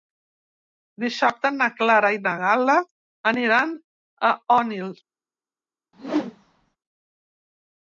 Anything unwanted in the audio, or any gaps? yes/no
yes